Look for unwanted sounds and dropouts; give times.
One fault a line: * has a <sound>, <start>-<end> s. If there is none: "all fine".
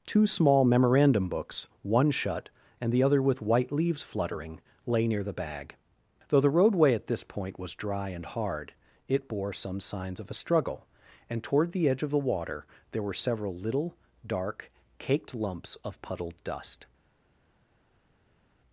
all fine